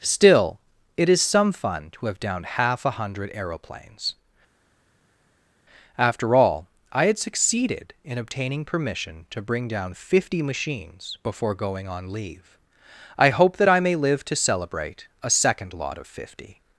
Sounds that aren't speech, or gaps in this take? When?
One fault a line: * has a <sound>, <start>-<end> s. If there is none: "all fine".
all fine